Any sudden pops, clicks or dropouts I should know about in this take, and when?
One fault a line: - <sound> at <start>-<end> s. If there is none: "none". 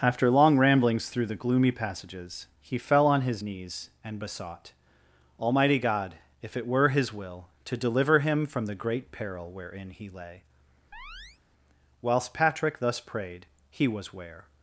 - chirp at 10.9-11.4 s